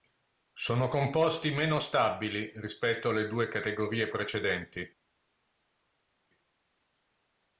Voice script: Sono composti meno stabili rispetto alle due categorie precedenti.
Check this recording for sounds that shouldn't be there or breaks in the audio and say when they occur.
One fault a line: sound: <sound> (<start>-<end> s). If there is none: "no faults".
no faults